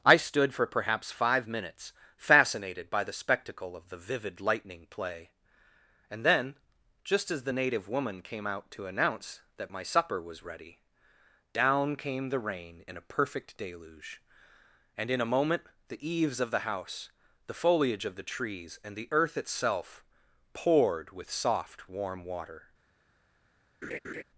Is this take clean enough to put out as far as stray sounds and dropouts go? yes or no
no